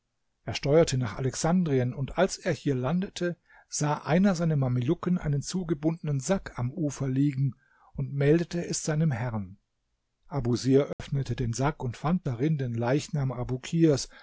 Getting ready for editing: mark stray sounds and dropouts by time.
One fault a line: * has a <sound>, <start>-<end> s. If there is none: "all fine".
* has a dropout, 10.9-11.0 s